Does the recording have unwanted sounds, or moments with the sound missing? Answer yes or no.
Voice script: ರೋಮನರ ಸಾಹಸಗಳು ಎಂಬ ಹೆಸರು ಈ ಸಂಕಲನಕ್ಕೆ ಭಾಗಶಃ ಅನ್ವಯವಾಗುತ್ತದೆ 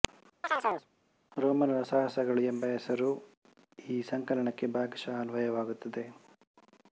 yes